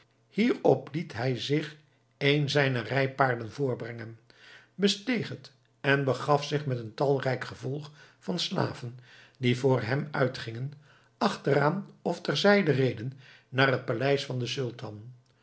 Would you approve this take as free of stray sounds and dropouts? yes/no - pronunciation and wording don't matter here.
yes